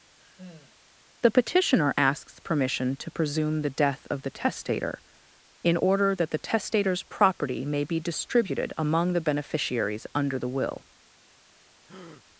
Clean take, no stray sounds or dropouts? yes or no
no